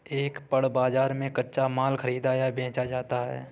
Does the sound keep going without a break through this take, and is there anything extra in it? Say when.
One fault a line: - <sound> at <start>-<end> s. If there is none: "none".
none